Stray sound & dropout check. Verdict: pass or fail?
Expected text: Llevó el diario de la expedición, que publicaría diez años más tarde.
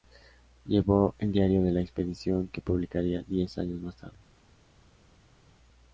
pass